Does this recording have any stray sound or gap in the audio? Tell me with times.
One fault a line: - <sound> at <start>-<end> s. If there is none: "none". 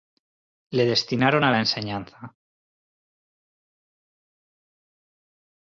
none